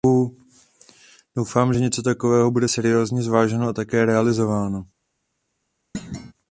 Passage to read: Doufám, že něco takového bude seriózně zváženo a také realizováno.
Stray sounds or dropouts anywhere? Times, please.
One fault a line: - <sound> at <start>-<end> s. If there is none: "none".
- thud at 5.9-6.3 s